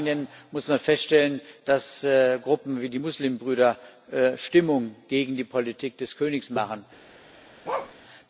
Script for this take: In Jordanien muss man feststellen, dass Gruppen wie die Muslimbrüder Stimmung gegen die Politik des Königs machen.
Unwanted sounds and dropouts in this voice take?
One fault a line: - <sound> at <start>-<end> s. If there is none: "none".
- bark at 7.6-7.9 s